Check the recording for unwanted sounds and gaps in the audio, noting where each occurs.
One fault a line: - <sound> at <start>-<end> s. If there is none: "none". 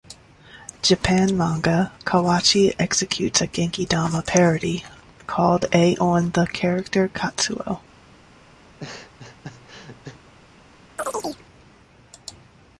- laugh at 8.6-10.2 s
- chirp at 11.0-11.4 s